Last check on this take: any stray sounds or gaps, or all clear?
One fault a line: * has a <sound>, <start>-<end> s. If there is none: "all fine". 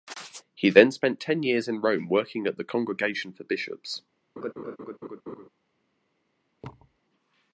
* has a laugh, 4.4-5.5 s
* has a thud, 6.6-7.0 s